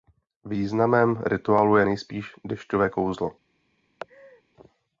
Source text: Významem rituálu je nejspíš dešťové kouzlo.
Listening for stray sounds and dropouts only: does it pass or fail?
fail